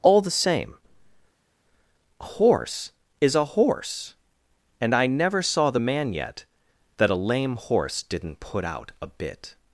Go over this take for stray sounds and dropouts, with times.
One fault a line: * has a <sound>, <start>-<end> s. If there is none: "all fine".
all fine